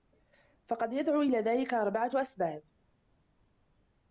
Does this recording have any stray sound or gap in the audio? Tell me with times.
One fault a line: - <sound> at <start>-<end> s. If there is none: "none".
none